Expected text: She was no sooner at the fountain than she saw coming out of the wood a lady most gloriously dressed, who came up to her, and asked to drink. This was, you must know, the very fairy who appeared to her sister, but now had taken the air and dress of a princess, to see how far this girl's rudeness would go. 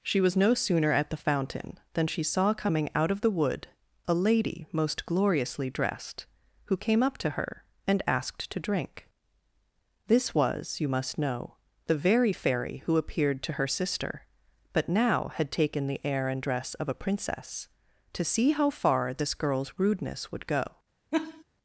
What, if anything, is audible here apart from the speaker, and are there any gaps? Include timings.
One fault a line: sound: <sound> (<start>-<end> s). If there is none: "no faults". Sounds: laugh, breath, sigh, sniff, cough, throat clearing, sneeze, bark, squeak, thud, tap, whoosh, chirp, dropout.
sound: laugh (21.1-21.4 s)